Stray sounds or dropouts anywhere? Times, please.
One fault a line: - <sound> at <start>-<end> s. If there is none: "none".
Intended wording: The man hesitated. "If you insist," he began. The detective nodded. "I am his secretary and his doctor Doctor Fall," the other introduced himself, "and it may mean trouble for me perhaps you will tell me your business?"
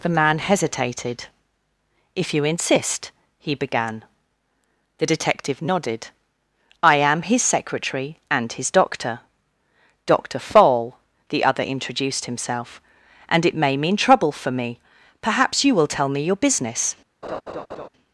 - laugh at 17.2-17.9 s